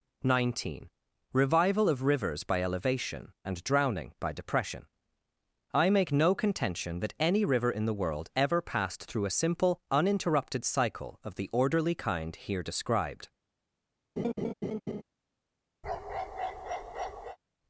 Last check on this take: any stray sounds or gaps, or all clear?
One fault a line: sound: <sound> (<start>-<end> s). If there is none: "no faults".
sound: laugh (14.2-15.0 s)
sound: bark (15.8-17.4 s)